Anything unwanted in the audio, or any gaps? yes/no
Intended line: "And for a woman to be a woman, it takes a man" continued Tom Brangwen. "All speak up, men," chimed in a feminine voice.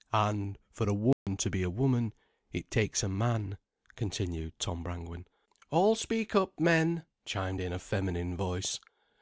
yes